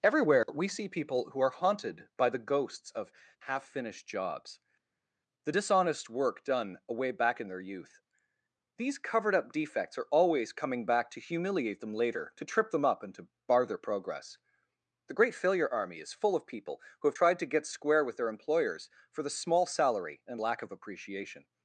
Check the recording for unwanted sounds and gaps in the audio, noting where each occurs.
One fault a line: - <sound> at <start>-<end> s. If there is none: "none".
none